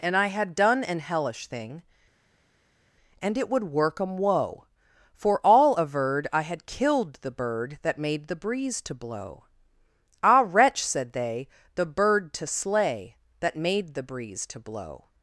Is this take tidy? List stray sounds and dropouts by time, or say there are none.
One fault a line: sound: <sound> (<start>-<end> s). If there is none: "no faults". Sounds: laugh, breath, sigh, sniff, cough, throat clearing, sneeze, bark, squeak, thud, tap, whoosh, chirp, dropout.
no faults